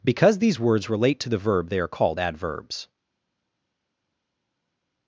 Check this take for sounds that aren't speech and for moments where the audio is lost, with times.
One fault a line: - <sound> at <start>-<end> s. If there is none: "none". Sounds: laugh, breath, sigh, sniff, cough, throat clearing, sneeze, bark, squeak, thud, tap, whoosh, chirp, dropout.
none